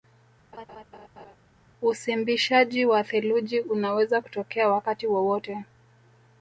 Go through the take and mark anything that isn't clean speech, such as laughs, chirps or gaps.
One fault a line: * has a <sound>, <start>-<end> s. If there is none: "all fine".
* has a laugh, 0.5-1.4 s